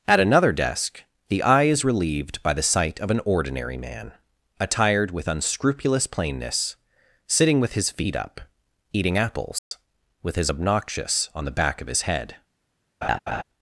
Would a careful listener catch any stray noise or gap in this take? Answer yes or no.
yes